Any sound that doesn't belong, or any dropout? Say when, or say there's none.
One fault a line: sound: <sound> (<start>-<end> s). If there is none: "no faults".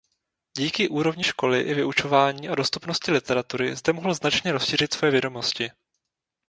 no faults